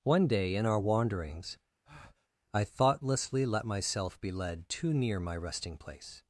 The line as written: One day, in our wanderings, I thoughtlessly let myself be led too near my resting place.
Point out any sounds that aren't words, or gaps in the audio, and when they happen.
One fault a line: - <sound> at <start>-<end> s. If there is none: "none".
- breath at 1.8-2.3 s